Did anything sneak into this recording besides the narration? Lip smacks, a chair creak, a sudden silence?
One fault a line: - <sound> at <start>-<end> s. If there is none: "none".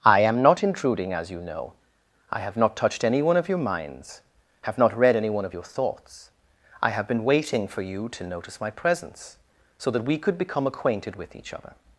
none